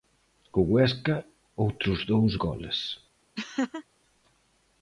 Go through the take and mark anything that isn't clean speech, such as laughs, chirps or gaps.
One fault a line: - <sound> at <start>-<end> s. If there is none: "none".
- laugh at 3.4-3.8 s